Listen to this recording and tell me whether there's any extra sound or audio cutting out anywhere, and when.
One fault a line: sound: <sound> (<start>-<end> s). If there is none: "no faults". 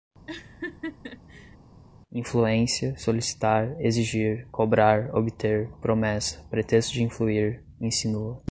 sound: laugh (0.3-1.6 s)